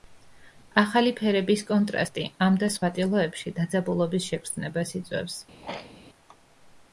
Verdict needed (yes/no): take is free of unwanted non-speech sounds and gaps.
no